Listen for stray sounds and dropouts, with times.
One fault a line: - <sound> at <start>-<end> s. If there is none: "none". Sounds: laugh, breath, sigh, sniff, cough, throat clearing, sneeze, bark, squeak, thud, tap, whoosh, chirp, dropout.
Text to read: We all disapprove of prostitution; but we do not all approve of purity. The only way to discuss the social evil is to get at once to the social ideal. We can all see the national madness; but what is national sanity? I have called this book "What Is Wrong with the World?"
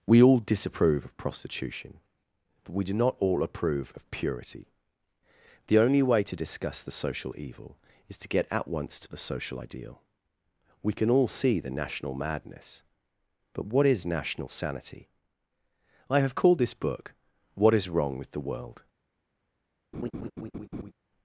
- laugh at 19.9-20.9 s